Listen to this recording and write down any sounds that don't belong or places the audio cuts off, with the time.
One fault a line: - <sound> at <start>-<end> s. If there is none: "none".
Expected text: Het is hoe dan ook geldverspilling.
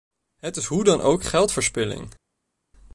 none